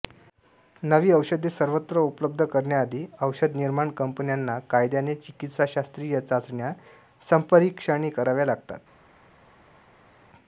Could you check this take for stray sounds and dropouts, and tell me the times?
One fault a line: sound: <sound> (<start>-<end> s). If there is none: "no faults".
no faults